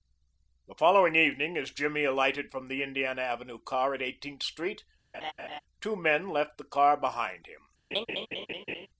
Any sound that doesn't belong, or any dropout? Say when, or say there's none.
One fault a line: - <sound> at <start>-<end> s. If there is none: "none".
- laugh at 5.1-5.6 s
- laugh at 7.9-8.9 s